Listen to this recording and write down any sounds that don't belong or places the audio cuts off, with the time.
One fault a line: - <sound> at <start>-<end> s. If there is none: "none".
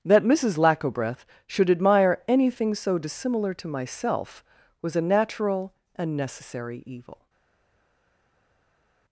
none